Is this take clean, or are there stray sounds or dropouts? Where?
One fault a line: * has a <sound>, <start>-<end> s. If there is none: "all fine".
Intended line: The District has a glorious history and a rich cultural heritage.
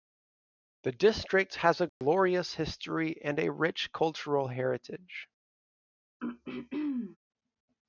* has a dropout, 1.9-2.0 s
* has a throat clearing, 6.2-7.2 s